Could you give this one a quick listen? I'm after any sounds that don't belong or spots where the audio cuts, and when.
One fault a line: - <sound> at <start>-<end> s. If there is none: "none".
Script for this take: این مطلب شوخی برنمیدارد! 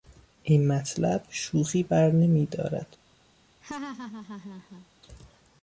- laugh at 3.6-4.9 s